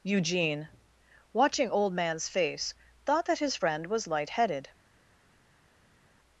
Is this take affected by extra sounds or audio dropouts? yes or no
no